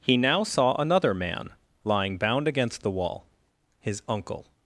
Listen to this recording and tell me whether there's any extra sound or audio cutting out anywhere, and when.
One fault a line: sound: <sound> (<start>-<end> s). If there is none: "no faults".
no faults